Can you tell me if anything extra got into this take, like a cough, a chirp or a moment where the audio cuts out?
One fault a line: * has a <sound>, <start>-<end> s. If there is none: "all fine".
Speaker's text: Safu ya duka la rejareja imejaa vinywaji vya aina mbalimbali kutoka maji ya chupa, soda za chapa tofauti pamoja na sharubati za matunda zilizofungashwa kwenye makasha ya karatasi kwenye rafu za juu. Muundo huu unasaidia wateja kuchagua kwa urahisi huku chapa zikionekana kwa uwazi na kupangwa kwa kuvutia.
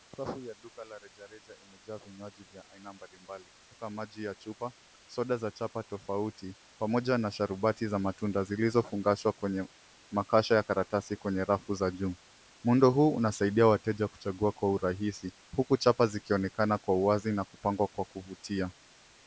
all fine